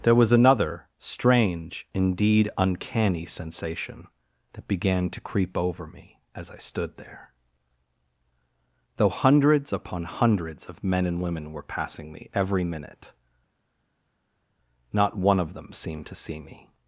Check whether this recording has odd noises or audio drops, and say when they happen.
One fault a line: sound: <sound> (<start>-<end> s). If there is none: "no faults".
no faults